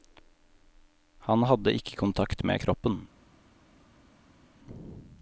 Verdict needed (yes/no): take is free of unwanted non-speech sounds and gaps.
yes